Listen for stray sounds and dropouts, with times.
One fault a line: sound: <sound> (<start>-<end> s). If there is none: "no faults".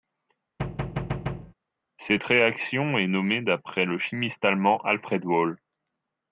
sound: thud (0.6-1.5 s)